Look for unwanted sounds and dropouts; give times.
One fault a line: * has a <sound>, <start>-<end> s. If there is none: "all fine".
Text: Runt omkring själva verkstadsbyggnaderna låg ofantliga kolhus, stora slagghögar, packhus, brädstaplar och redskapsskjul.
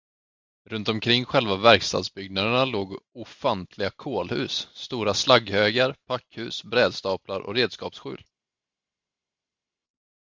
all fine